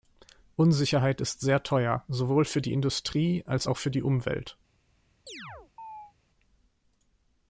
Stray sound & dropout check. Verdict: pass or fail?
fail